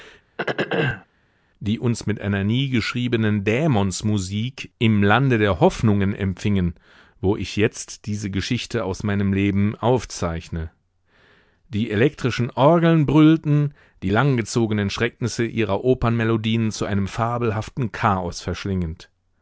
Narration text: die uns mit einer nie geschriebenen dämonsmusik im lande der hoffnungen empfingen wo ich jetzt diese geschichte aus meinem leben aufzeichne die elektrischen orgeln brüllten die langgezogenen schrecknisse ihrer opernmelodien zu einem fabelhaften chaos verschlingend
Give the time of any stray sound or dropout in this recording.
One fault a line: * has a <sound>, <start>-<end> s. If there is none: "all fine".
* has a throat clearing, 0.4-1.1 s